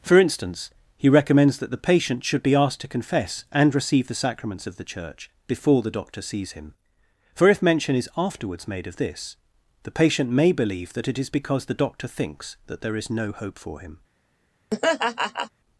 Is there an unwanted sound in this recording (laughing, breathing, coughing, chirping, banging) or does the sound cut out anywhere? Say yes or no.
yes